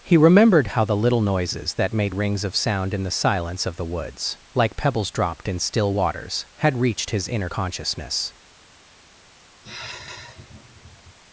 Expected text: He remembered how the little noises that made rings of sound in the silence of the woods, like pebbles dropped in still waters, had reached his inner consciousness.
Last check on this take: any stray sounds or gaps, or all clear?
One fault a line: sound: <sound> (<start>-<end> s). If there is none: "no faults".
sound: sigh (9.6-11.2 s)